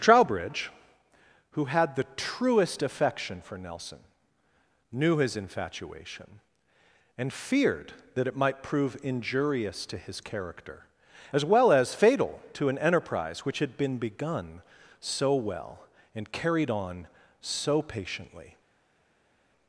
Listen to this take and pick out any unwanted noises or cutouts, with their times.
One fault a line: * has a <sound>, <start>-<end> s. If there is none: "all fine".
all fine